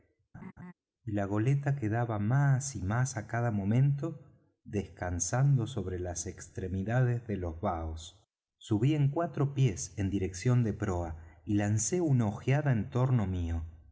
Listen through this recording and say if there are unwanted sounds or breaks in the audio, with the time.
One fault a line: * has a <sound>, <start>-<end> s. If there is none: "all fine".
* has a laugh, 0.3-0.7 s